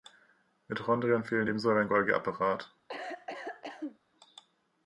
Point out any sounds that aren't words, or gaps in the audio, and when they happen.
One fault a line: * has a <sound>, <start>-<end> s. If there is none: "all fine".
* has a cough, 2.9-4.0 s